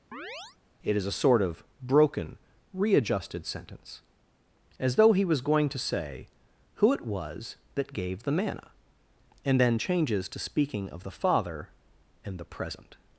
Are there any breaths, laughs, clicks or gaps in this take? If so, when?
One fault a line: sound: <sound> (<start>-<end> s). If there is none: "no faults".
sound: chirp (0.1-0.6 s)